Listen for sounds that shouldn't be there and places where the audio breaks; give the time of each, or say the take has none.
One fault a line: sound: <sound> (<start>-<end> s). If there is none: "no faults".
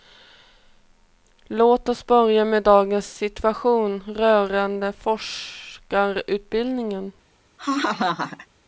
sound: laugh (7.6-8.5 s)